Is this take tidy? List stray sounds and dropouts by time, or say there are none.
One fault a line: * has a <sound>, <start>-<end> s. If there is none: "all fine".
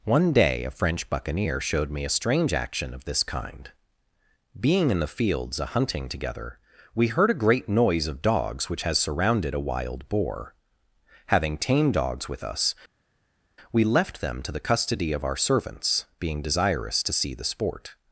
all fine